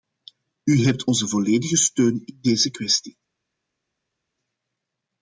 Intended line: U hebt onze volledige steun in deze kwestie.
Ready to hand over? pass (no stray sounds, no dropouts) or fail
pass